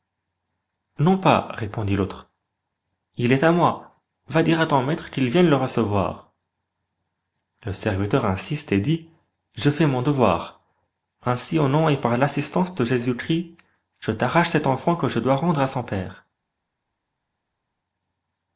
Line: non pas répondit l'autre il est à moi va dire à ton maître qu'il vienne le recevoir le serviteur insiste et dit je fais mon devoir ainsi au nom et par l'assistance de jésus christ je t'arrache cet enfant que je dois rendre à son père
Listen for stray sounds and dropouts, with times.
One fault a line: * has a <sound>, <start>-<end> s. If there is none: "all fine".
all fine